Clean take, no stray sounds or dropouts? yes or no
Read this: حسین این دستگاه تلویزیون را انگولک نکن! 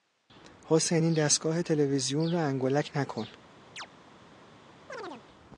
no